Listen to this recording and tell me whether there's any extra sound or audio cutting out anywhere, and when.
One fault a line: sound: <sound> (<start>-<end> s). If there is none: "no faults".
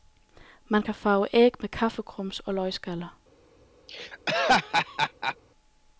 sound: laugh (3.9-5.4 s)